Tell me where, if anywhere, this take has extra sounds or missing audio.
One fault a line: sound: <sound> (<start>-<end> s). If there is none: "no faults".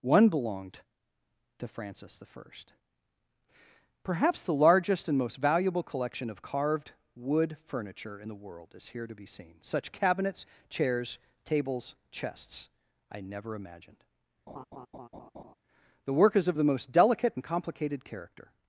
sound: laugh (14.5-15.5 s)